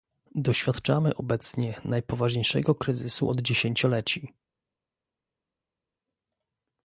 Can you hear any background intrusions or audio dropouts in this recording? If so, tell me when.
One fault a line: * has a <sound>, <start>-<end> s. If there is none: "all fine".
all fine